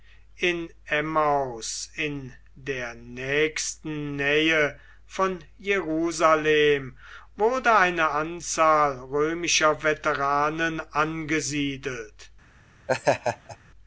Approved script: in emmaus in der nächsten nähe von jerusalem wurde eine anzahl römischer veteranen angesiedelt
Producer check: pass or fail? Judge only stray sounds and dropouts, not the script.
fail